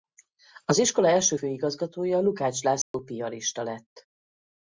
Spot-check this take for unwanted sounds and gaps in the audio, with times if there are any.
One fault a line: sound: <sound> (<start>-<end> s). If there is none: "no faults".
sound: dropout (2.8-2.9 s)